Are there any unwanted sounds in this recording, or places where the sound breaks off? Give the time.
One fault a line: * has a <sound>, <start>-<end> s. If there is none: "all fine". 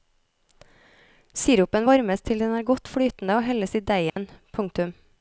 * has a dropout, 4.1-4.2 s